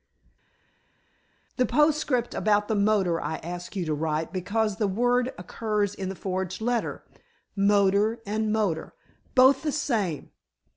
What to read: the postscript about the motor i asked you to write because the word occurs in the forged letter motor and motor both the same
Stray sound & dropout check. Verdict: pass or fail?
pass